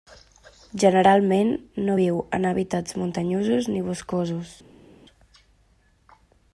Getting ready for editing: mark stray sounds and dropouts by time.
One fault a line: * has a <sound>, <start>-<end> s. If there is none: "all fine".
all fine